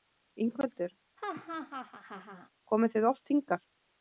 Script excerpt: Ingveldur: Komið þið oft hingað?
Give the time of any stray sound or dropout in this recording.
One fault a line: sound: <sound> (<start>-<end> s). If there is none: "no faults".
sound: laugh (1.2-2.5 s)